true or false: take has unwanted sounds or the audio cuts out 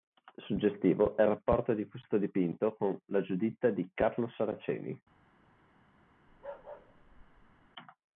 true